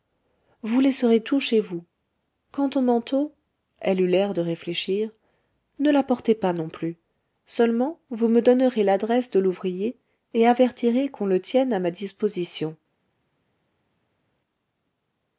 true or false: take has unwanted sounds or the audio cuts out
false